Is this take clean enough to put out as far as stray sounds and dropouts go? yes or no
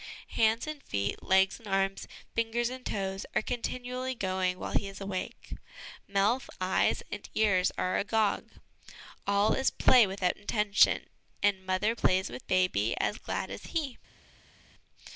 yes